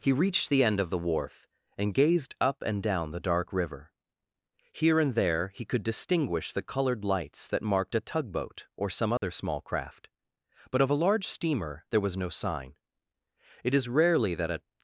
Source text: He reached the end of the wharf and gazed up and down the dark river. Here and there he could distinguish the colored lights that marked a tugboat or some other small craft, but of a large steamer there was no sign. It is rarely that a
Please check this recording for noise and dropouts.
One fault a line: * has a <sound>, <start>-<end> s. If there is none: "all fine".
* has a dropout, 9.2-9.2 s